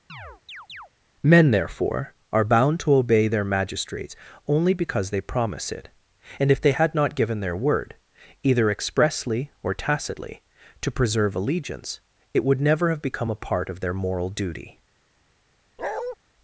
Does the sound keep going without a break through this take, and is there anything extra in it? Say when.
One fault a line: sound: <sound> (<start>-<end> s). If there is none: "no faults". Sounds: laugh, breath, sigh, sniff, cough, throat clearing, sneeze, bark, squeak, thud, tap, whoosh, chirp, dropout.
sound: chirp (0.1-0.9 s)
sound: bark (15.8-16.2 s)